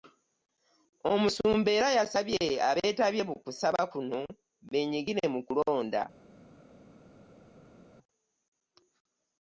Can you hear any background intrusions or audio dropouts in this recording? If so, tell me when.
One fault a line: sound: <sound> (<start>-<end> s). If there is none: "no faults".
no faults